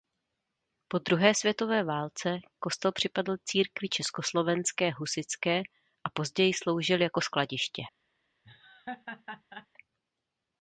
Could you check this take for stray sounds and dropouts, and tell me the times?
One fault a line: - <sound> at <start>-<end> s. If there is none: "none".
- laugh at 8.4-9.7 s